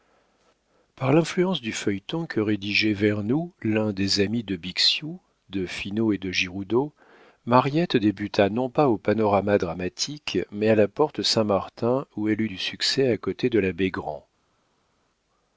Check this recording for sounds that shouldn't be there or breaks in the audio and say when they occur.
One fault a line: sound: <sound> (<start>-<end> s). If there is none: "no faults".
no faults